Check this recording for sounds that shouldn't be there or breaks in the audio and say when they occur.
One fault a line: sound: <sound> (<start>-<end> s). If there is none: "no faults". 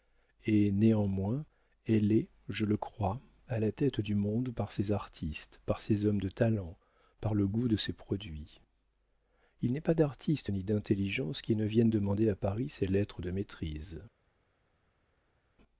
no faults